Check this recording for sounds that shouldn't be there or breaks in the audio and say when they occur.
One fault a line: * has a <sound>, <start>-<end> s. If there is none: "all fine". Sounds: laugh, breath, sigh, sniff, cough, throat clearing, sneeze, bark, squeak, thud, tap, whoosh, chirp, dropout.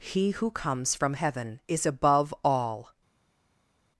all fine